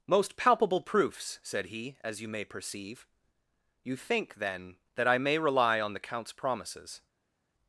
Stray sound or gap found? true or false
false